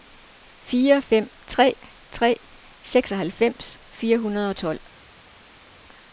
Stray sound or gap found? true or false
false